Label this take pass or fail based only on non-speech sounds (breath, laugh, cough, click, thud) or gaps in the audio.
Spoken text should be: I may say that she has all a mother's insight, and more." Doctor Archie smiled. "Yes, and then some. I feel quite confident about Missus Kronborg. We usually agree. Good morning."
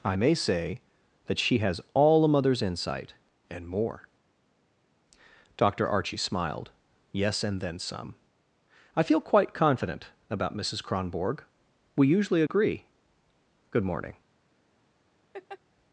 fail